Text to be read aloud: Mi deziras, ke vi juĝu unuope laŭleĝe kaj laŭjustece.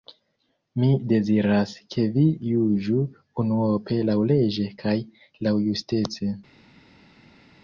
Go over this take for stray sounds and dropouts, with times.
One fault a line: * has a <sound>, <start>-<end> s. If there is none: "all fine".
all fine